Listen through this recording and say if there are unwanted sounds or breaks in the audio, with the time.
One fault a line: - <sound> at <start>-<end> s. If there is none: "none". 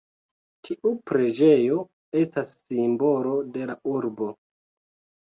none